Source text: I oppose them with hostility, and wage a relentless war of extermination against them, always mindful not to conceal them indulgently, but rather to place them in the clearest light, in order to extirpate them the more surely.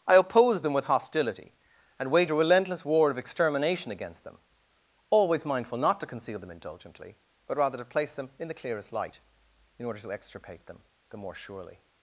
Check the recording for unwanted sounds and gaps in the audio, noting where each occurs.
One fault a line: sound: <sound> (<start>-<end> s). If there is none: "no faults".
no faults